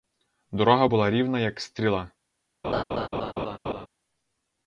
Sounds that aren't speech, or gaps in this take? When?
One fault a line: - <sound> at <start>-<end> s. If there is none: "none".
- laugh at 2.6-3.9 s